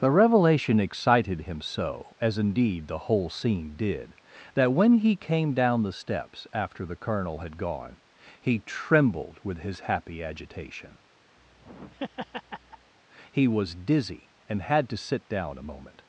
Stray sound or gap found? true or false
true